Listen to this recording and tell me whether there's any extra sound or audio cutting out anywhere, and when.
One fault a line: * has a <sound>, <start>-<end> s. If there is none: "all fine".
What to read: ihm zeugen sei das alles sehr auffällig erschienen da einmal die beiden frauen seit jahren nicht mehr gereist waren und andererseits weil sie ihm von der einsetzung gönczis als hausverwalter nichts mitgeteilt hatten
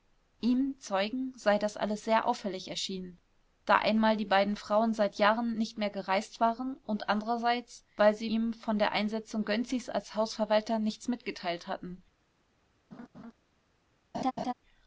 * has a laugh, 12.9-13.3 s
* has a laugh, 14.1-14.5 s